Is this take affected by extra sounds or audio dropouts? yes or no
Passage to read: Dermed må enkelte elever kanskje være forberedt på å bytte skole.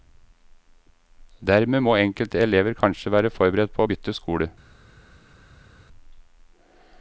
no